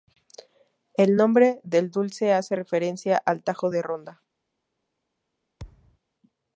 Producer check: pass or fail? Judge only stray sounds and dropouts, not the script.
fail